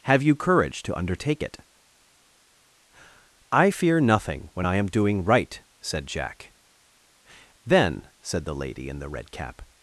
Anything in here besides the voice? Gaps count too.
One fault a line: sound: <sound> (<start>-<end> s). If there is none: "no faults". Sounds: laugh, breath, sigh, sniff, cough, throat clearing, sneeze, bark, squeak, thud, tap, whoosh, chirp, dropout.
no faults